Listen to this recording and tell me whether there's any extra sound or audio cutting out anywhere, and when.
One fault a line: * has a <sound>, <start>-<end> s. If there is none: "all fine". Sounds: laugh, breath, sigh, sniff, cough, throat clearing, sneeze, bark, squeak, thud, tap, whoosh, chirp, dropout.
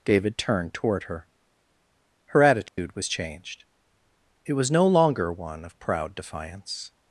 * has a dropout, 2.7-2.8 s